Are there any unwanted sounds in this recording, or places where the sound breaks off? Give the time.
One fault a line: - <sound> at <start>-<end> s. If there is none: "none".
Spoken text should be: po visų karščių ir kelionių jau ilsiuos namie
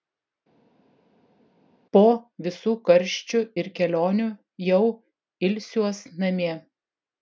none